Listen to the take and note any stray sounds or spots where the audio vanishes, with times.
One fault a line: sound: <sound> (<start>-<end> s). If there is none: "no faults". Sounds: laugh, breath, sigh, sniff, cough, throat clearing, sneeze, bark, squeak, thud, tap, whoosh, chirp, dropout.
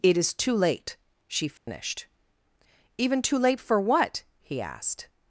sound: dropout (1.6-1.7 s)